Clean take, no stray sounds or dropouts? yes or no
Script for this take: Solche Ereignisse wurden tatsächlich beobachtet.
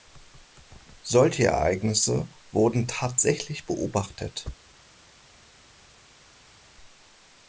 yes